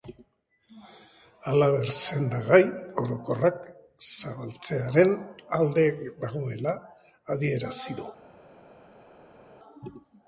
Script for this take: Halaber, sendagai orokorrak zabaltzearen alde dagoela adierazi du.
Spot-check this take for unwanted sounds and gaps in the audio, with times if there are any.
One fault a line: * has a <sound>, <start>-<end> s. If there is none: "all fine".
all fine